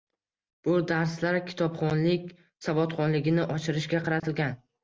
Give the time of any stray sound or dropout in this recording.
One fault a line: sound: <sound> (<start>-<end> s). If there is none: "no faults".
sound: dropout (4.2-4.2 s)